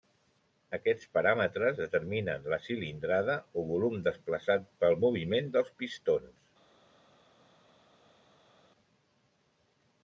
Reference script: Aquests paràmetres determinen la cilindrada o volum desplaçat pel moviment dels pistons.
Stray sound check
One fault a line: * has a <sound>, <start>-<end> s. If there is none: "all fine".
all fine